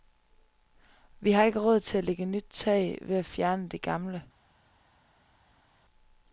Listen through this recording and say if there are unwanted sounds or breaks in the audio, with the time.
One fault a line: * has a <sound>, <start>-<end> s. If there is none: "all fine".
all fine